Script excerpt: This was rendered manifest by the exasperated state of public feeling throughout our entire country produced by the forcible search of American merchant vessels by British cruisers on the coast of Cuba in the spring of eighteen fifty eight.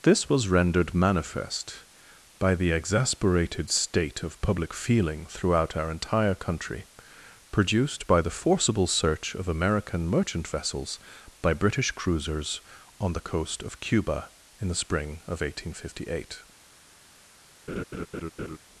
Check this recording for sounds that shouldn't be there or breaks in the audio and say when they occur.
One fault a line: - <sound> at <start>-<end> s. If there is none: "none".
- laugh at 17.7-18.6 s